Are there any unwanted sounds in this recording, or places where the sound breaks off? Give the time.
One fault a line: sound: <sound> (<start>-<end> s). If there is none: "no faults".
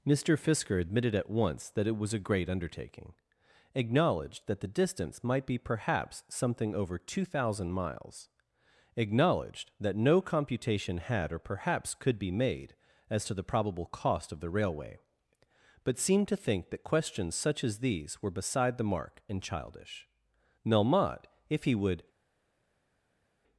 no faults